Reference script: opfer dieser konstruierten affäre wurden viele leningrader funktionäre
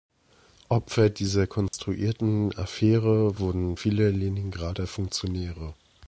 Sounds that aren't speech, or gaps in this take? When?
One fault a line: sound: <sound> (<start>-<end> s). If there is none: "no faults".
sound: dropout (1.7-1.7 s)